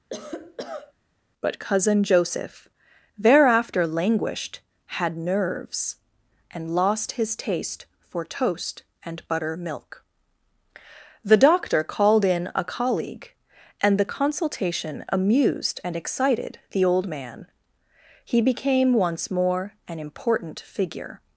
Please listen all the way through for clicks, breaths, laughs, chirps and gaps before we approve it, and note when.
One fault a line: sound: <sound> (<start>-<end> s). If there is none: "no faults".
sound: cough (0.1-0.9 s)